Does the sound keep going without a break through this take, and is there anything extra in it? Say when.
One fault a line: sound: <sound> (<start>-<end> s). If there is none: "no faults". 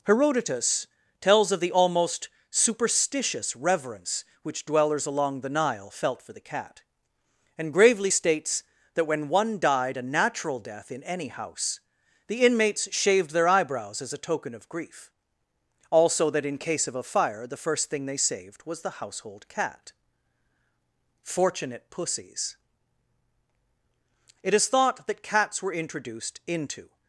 no faults